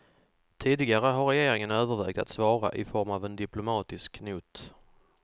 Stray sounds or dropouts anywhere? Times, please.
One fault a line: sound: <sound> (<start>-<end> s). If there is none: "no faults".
no faults